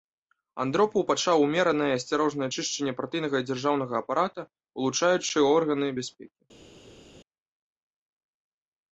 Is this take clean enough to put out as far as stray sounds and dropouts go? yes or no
yes